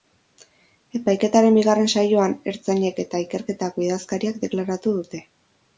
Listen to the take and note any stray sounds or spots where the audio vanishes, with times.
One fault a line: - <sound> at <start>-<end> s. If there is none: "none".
none